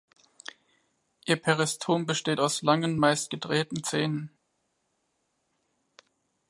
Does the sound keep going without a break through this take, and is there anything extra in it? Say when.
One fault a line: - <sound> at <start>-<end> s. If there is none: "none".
none